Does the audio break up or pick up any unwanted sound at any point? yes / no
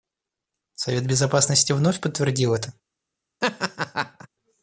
yes